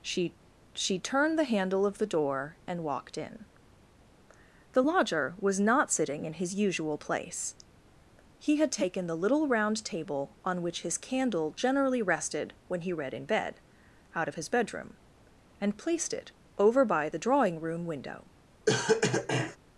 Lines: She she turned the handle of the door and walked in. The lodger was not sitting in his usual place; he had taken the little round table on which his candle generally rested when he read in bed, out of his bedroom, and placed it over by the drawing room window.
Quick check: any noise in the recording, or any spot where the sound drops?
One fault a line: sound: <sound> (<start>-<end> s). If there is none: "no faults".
sound: cough (18.7-19.6 s)